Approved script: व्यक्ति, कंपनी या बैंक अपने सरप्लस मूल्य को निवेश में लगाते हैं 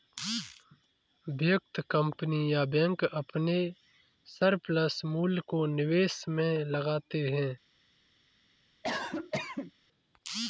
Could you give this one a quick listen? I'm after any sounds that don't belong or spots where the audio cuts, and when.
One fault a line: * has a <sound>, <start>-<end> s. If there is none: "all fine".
* has a cough, 8.8-9.7 s